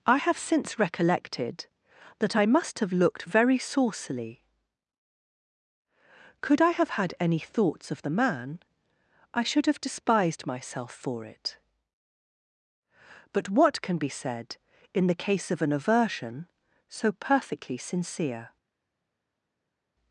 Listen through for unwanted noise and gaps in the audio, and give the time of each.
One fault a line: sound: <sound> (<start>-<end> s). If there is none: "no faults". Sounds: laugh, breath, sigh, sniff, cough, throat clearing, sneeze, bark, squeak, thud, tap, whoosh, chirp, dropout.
no faults